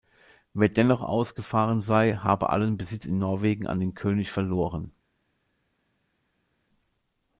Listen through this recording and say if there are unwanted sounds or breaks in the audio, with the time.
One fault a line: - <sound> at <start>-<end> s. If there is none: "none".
none